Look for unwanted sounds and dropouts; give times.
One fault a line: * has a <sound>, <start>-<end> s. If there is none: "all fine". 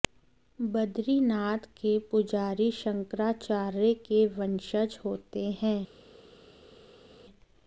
all fine